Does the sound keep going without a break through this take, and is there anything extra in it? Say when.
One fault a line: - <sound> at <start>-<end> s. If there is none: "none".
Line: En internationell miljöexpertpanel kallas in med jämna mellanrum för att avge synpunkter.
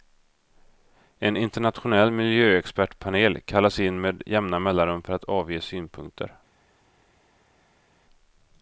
none